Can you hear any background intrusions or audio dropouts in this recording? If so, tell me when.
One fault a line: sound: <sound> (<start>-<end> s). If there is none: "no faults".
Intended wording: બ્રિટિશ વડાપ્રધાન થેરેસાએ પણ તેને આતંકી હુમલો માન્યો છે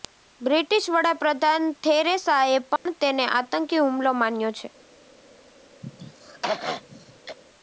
sound: dropout (2.8-2.9 s)
sound: throat clearing (5.8-7.4 s)